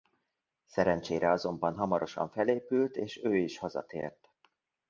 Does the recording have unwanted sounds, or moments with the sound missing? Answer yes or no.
no